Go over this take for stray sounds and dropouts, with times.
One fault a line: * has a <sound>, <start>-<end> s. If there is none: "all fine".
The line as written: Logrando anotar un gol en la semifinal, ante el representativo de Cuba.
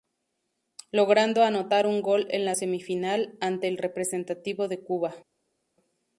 all fine